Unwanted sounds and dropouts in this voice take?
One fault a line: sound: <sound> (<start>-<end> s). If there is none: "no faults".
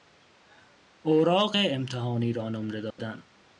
sound: dropout (2.9-3.0 s)